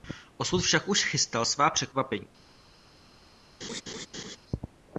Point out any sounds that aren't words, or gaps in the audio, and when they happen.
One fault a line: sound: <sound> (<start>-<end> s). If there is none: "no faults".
sound: laugh (3.6-4.4 s)